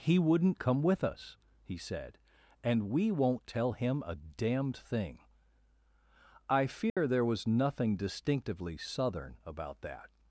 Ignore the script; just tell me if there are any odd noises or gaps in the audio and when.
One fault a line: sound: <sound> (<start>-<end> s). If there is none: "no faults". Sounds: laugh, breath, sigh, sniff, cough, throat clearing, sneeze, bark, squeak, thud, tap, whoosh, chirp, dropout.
sound: dropout (6.9-7.0 s)